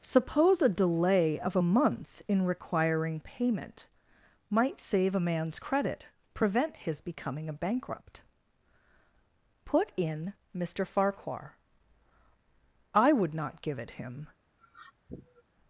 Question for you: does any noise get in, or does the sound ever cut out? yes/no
yes